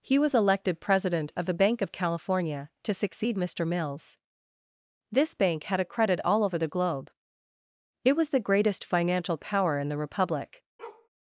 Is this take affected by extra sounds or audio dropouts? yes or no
yes